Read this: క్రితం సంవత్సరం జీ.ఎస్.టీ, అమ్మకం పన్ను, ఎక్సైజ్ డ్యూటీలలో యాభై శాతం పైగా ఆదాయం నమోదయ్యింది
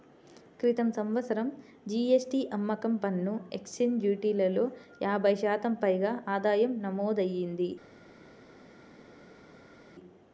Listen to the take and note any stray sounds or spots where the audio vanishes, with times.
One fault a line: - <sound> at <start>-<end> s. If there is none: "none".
none